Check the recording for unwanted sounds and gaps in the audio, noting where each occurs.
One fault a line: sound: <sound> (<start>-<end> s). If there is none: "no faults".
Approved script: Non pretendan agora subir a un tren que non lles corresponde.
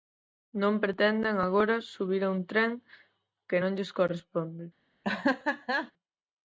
sound: laugh (5.0-5.9 s)